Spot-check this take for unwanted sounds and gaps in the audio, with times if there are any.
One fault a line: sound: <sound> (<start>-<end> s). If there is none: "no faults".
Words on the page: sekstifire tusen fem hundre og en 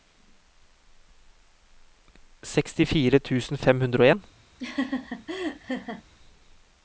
sound: laugh (4.6-6.0 s)